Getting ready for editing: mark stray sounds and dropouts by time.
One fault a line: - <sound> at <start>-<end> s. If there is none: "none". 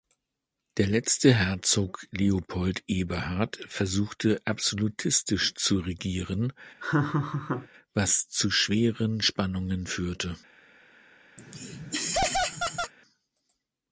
- laugh at 6.8-7.7 s
- laugh at 11.4-12.9 s